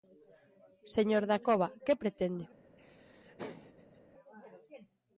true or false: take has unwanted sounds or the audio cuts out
true